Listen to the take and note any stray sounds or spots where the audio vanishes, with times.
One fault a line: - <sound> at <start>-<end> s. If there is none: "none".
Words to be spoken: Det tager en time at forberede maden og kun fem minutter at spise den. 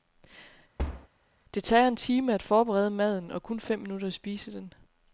- thud at 0.8-1.1 s